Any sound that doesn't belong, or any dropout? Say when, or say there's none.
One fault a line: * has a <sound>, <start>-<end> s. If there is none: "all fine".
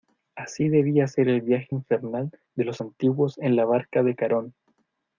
all fine